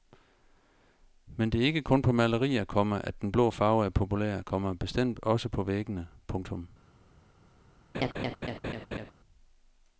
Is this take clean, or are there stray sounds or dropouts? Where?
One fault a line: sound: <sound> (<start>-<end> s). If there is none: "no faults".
sound: laugh (7.9-9.1 s)